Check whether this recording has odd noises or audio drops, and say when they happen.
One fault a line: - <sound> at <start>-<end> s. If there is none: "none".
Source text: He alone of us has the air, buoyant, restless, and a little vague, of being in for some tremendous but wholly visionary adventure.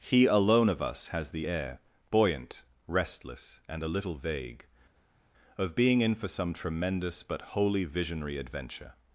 none